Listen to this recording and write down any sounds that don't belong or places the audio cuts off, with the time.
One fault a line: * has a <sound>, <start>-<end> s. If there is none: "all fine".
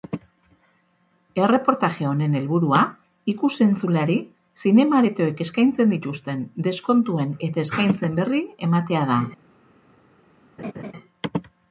* has a laugh, 10.6-10.9 s